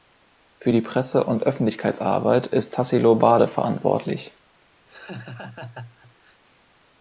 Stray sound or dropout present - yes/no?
yes